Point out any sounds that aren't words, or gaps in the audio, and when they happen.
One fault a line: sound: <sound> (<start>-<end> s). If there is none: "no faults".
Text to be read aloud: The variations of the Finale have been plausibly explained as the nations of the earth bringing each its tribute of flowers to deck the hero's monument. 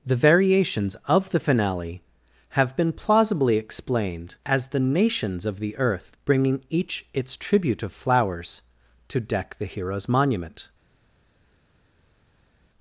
no faults